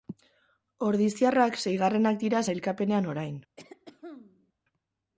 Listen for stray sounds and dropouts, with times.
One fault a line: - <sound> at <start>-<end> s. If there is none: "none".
- throat clearing at 3.6-4.5 s